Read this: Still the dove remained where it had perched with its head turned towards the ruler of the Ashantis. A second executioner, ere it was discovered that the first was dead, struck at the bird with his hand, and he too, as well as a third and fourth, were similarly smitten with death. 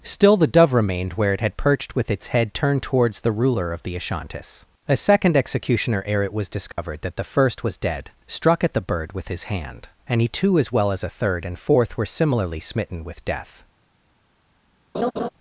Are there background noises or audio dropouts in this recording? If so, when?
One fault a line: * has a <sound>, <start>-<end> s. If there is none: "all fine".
* has a dropout, 6.7-6.8 s
* has a laugh, 14.9-15.3 s